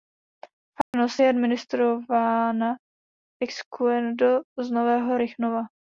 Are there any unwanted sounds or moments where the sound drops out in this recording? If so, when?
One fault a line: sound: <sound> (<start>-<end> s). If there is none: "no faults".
sound: dropout (0.8-0.9 s)